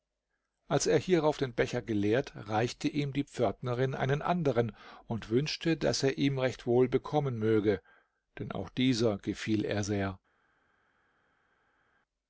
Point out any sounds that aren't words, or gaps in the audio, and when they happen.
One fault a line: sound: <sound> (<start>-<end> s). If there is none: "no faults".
no faults